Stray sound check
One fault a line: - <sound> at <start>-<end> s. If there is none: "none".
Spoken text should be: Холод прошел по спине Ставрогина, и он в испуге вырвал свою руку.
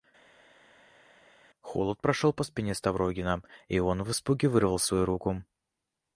none